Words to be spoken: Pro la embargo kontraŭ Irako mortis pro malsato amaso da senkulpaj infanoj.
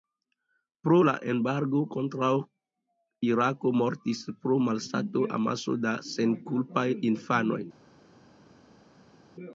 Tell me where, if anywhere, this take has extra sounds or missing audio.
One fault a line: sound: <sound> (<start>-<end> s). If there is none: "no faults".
no faults